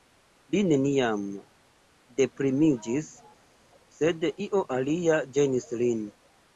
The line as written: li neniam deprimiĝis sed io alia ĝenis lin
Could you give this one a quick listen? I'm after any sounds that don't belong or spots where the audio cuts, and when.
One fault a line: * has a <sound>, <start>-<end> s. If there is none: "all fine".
all fine